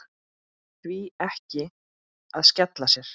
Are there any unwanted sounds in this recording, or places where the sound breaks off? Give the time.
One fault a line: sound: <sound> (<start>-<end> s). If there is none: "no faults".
no faults